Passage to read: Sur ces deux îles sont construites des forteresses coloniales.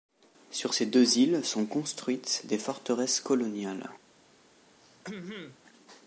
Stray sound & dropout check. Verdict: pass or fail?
fail